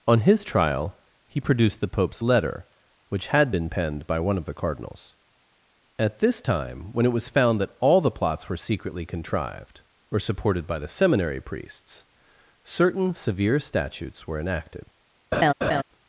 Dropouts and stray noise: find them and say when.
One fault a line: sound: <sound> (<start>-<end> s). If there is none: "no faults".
sound: laugh (15.3-15.8 s)